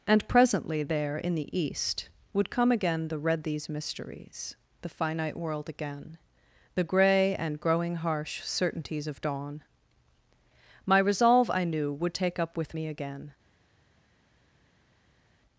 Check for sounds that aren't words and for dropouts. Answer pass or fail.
pass